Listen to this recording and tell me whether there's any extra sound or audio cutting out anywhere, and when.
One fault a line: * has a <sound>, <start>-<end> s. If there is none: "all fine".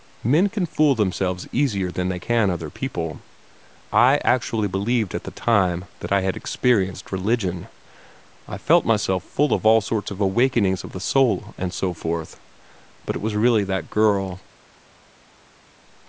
all fine